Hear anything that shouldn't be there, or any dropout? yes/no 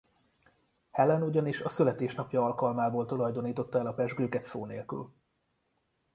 no